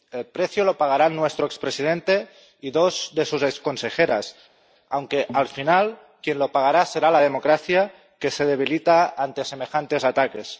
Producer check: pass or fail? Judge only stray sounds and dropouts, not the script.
pass